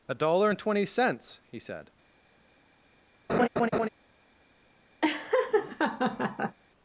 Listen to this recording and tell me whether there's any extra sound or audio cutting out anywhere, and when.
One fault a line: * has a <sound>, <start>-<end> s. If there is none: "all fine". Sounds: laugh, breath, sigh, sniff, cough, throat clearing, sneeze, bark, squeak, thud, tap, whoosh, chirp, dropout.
* has a laugh, 3.3-3.9 s
* has a laugh, 5.0-6.6 s